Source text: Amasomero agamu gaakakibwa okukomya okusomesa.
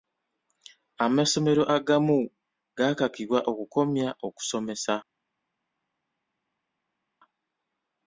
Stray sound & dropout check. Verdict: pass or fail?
pass